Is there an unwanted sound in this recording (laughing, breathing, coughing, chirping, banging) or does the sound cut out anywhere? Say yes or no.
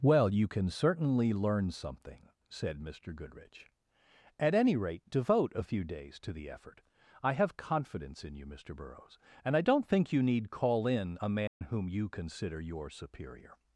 yes